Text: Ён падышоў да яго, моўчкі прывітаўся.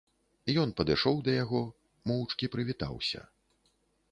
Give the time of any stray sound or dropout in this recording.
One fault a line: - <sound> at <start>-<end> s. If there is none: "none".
none